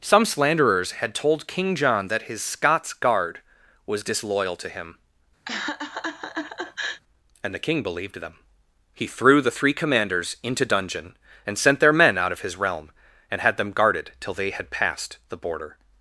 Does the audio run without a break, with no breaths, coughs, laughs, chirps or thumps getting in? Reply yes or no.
no